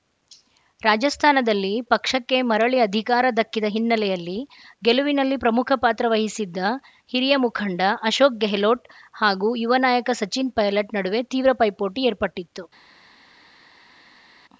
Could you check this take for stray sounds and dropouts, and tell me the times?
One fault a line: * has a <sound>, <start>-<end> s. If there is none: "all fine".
all fine